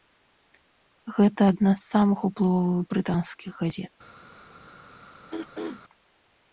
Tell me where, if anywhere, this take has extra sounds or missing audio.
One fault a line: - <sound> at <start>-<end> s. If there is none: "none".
- throat clearing at 5.3-5.8 s